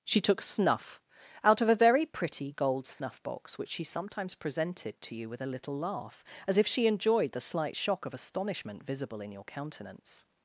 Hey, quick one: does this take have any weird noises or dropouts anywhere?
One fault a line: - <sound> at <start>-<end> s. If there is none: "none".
- dropout at 2.9-3.0 s